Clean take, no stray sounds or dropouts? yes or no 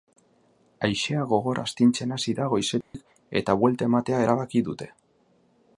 no